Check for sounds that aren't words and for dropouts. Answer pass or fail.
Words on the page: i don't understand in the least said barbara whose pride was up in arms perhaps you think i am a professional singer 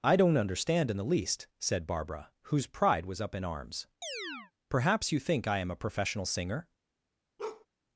fail